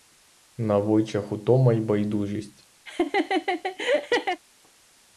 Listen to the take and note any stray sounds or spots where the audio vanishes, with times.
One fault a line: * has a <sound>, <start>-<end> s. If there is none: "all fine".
* has a laugh, 2.9-4.4 s